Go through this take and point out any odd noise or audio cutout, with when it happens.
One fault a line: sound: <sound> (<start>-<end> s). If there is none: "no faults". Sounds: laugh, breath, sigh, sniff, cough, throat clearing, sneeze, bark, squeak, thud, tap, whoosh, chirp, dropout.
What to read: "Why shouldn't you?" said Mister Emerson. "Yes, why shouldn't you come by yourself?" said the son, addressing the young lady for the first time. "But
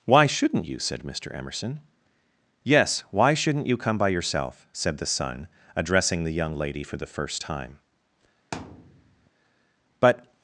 sound: thud (8.5-9.3 s)